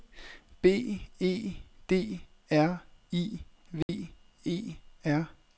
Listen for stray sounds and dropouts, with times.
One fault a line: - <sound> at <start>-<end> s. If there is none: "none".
- dropout at 3.8-3.9 s